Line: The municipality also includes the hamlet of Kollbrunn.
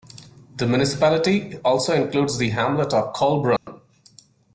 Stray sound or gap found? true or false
true